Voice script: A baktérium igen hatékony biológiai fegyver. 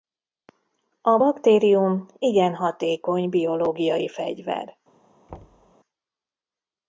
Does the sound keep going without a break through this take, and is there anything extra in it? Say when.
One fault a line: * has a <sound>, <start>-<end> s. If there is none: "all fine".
* has a thud, 5.3-5.7 s